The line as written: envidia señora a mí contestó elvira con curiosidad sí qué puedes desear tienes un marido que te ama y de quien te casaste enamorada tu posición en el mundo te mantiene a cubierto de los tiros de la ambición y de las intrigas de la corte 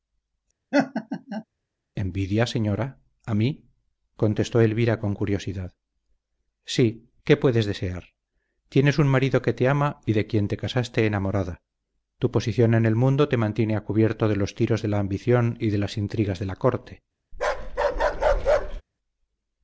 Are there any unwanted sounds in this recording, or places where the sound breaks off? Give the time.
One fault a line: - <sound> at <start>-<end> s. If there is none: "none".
- laugh at 0.7-1.4 s
- bark at 17.3-18.8 s